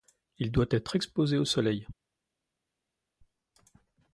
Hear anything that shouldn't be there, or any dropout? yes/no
no